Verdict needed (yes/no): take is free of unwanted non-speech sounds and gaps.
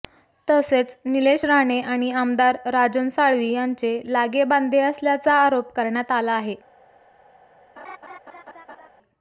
no